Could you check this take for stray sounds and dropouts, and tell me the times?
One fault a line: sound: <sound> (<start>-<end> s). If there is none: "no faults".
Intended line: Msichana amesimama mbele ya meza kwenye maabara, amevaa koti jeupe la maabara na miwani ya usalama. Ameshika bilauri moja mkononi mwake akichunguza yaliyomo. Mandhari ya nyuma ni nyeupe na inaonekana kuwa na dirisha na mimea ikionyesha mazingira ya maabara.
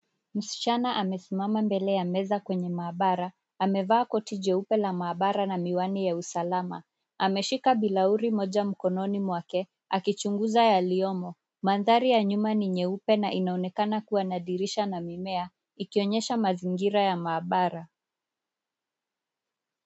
no faults